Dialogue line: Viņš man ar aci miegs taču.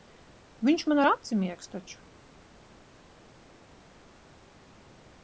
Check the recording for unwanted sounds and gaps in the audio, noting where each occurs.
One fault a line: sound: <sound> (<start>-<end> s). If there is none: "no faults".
no faults